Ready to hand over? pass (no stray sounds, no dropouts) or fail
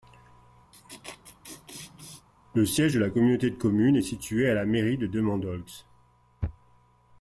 fail